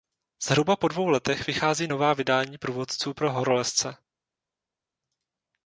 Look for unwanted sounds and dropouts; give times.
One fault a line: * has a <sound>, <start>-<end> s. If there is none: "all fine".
all fine